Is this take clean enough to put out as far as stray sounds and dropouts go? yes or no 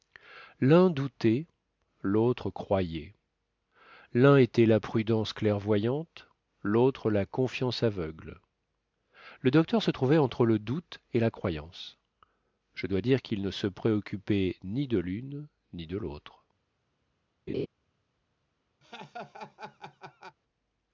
no